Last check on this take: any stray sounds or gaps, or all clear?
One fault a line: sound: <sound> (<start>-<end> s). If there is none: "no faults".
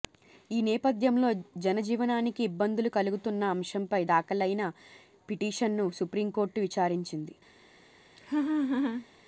sound: laugh (8.2-9.1 s)